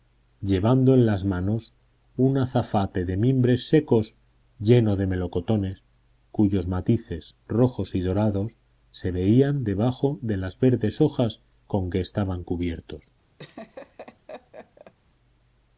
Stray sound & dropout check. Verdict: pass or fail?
fail